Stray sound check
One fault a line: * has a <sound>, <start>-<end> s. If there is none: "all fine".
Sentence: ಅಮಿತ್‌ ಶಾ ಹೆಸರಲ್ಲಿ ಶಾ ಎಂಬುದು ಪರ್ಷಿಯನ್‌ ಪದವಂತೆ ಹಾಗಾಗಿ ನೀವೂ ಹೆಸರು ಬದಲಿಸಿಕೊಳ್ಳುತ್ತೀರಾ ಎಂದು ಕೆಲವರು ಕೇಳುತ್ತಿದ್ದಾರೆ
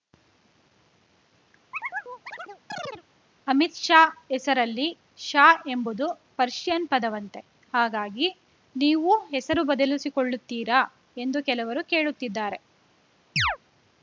* has a chirp, 1.7-3.0 s
* has a chirp, 13.4-13.6 s